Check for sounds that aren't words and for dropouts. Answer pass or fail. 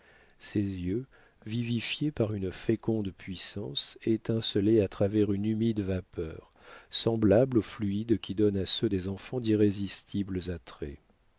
pass